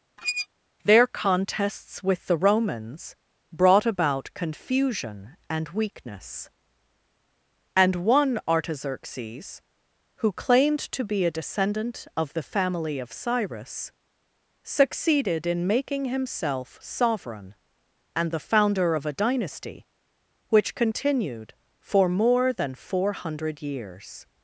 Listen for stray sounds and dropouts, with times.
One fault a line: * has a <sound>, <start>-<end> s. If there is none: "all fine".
* has a squeak, 0.2-0.5 s